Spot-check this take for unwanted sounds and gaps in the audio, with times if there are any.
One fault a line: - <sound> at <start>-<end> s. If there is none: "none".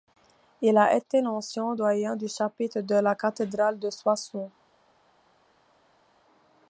none